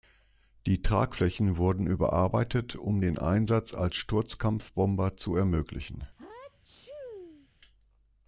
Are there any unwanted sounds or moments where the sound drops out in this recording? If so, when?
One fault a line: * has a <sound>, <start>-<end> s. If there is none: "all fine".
* has a sneeze, 6.2-7.5 s